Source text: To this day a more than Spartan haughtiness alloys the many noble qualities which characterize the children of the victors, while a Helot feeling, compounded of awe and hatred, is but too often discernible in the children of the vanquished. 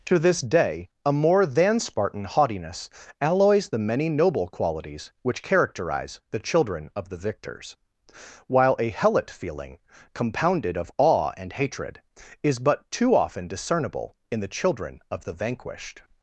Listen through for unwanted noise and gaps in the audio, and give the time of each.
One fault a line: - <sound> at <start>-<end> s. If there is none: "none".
none